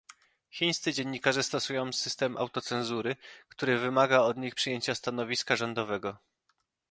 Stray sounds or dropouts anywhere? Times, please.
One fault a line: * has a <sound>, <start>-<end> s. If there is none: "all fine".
all fine